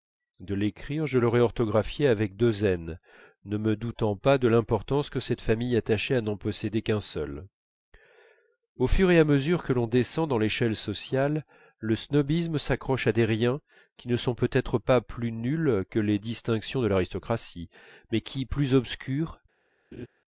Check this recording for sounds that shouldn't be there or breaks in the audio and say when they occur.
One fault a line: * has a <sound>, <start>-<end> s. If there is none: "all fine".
* has a laugh, 19.9-20.1 s